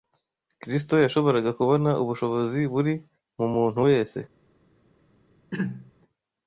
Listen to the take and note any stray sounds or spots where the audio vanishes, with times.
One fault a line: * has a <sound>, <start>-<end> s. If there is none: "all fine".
* has a throat clearing, 5.5-5.9 s